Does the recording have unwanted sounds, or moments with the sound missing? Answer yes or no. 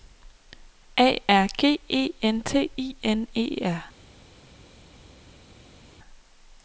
no